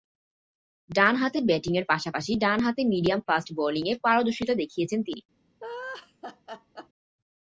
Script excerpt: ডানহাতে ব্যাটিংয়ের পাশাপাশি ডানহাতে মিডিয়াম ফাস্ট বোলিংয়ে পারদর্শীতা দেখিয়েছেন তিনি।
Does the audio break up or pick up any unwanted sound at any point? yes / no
yes